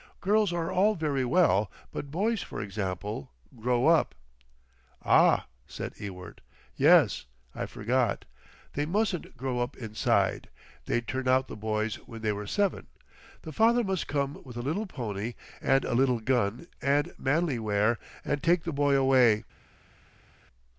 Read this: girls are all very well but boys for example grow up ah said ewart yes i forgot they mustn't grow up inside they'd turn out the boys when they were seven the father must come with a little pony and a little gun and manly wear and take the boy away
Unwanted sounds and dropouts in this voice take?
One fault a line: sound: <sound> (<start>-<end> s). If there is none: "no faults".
no faults